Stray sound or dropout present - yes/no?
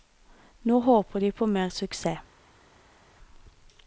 no